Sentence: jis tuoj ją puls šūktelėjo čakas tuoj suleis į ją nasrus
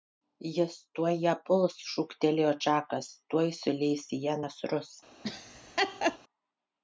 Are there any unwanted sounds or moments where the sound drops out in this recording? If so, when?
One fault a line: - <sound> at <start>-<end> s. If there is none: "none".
- laugh at 5.2-6.2 s